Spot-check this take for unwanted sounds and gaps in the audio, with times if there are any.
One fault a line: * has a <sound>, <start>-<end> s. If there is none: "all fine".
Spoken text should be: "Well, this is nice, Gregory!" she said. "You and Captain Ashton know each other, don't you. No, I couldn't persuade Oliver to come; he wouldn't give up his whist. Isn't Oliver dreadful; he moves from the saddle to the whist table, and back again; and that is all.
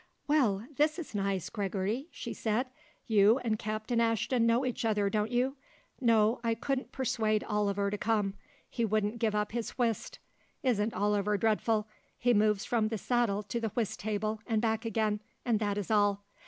all fine